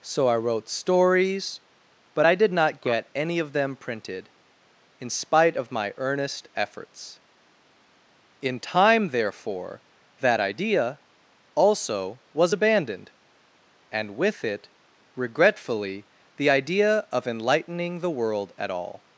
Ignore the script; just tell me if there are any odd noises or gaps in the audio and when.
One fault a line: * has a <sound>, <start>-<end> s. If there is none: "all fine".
all fine